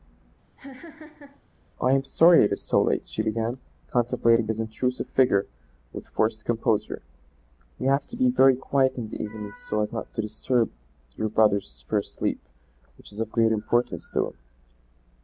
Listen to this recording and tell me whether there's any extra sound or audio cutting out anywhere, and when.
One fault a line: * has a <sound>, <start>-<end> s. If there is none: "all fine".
* has a laugh, 0.6-1.4 s